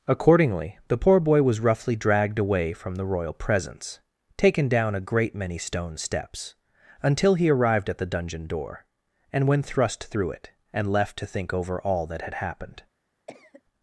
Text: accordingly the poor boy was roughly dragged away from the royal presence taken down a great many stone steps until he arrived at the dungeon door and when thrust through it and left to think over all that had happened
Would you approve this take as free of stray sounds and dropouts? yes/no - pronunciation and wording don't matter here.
no